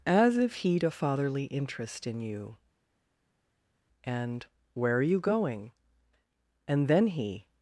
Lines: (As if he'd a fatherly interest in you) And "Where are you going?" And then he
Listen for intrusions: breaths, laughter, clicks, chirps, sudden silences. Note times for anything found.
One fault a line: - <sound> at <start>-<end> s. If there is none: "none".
none